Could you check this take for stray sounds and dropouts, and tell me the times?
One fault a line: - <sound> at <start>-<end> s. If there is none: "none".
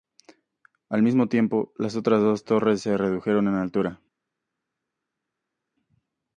none